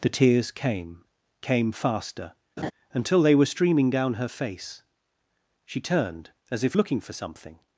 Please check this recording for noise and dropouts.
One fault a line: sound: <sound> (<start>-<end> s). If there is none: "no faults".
sound: laugh (2.6-2.7 s)